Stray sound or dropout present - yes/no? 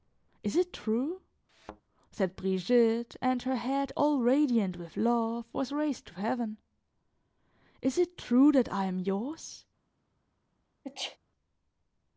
yes